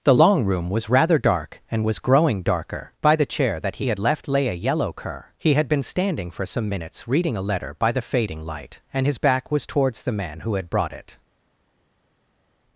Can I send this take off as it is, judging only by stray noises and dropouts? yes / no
yes